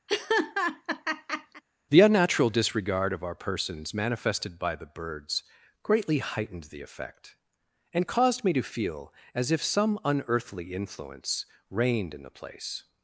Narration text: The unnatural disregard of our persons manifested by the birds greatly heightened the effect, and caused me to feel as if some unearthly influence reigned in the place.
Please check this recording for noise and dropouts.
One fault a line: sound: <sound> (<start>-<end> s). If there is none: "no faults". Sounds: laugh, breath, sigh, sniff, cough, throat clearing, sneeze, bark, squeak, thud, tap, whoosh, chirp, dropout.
sound: laugh (0.1-1.6 s)